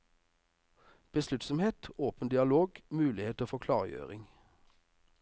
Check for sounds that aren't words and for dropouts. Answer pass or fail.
pass